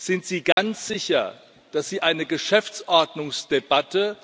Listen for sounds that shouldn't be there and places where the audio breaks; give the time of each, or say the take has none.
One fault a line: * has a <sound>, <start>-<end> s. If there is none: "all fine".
* has a dropout, 0.5-0.6 s